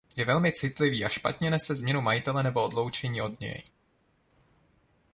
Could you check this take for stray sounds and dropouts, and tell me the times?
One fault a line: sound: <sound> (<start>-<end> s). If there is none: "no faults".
no faults